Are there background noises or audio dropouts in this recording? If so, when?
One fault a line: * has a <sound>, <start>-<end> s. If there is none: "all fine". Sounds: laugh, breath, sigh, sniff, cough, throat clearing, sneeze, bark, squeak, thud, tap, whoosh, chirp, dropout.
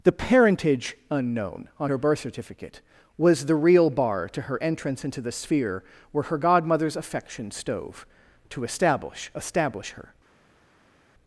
all fine